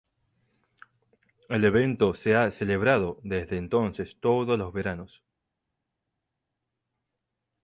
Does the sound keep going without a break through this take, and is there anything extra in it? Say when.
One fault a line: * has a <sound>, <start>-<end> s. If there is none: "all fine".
all fine